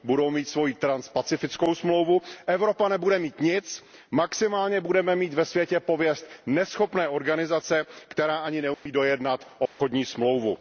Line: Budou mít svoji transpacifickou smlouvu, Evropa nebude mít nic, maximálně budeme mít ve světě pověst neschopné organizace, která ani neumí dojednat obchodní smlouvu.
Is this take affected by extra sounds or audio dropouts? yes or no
yes